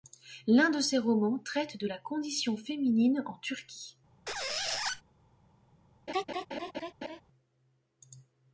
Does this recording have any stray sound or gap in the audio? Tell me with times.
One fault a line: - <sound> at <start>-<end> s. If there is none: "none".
- squeak at 4.3-5.0 s
- laugh at 6.1-7.2 s